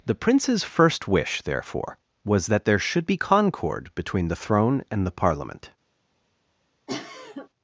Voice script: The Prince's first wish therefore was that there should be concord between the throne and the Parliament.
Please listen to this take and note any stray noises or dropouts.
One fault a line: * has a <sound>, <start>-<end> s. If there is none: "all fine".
* has a cough, 6.9-7.5 s